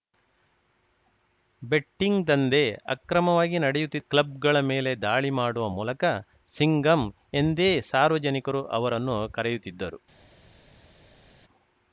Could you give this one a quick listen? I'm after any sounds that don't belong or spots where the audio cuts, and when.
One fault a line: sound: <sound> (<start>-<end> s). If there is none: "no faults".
no faults